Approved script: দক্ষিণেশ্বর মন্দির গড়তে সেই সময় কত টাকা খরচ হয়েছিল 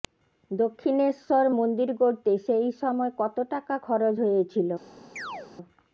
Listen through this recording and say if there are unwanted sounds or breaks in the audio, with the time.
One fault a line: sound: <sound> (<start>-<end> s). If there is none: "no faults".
sound: chirp (5.2-5.5 s)